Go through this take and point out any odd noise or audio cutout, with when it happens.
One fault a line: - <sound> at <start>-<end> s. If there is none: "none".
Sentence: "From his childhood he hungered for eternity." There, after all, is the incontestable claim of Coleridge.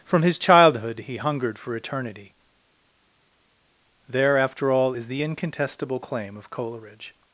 none